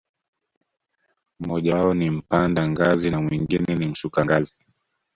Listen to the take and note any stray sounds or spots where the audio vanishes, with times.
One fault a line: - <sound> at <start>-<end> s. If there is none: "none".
none